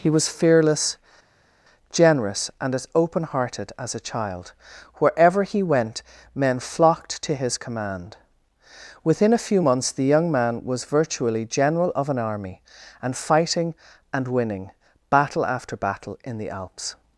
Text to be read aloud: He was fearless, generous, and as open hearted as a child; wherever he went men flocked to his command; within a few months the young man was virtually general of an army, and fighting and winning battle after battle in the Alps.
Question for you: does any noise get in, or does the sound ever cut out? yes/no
no